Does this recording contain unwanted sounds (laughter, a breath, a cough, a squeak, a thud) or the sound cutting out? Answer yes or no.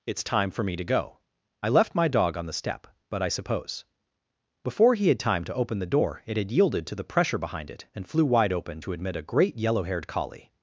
no